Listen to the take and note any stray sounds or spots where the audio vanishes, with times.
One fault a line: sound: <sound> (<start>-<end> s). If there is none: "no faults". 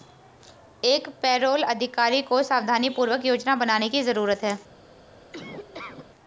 sound: laugh (5.3-6.1 s)